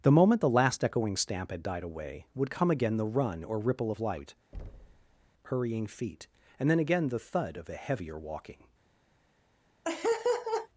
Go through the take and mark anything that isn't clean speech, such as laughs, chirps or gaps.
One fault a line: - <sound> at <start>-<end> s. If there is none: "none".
- thud at 4.5-5.3 s
- laugh at 9.8-10.7 s